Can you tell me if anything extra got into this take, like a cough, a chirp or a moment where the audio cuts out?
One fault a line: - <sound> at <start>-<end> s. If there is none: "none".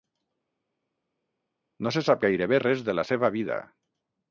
none